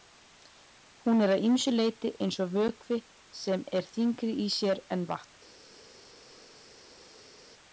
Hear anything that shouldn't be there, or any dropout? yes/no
no